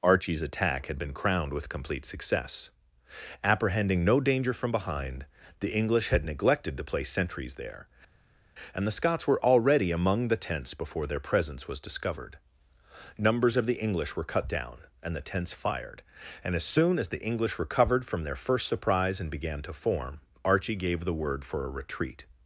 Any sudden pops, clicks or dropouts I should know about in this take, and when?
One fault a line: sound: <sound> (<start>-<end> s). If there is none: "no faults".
no faults